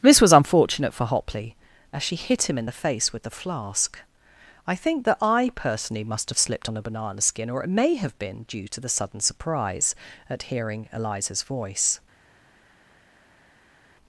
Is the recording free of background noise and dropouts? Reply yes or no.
yes